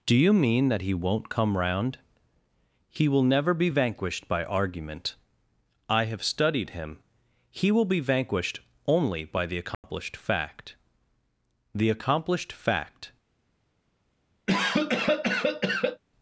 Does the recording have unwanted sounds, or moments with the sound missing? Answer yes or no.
yes